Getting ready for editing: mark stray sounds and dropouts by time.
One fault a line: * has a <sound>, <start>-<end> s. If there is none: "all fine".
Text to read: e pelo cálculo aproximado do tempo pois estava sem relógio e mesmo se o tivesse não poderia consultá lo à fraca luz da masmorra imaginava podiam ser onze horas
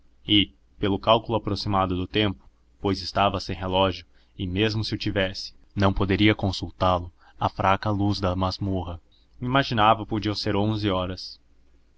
all fine